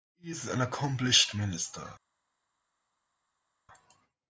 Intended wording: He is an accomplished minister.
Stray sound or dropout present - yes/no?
no